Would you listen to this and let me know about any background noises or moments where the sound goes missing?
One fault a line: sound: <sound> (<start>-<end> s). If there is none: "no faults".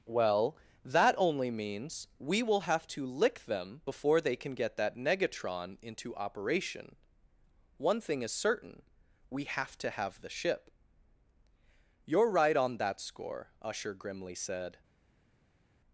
no faults